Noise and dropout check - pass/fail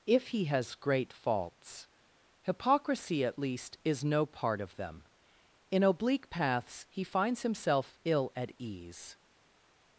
pass